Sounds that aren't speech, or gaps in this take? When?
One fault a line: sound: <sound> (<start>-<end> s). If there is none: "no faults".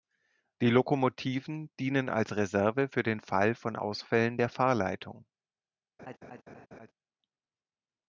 sound: laugh (6.0-6.9 s)